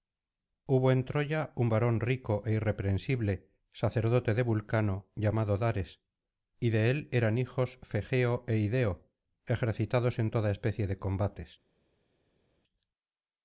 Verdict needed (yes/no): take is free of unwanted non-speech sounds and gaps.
yes